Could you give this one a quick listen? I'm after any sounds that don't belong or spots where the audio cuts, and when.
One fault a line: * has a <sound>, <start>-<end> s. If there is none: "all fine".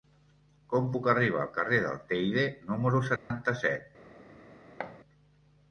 * has a dropout, 3.2-3.3 s
* has a thud, 4.8-5.0 s